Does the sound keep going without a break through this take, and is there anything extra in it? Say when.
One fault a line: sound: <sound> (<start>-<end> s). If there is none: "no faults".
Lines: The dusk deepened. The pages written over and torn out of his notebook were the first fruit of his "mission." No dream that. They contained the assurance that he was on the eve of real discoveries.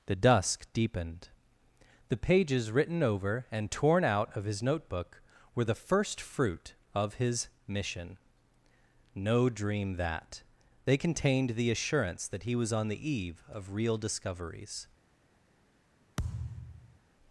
sound: thud (16.2-17.0 s)